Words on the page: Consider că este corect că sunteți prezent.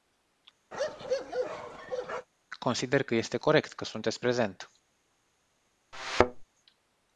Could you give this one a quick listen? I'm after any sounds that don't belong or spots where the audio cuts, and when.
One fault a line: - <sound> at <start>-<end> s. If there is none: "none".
- bark at 0.7-2.3 s
- thud at 5.9-6.4 s